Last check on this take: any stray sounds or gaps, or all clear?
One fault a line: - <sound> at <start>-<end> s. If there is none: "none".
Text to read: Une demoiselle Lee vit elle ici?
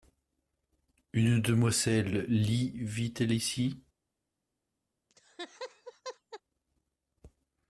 - laugh at 5.1-6.4 s